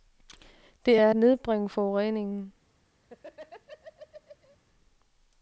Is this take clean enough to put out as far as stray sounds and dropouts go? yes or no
no